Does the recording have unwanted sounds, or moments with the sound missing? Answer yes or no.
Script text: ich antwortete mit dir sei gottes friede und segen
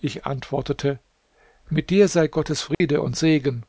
yes